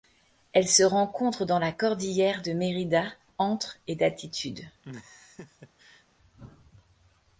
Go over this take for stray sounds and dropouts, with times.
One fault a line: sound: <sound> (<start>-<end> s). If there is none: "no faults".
sound: laugh (4.8-6.1 s)